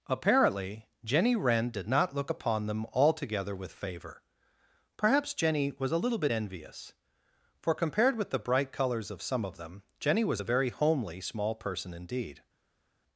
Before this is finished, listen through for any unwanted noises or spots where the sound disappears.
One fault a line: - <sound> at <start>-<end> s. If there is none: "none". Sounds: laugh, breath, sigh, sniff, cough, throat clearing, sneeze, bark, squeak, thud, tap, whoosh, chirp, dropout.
none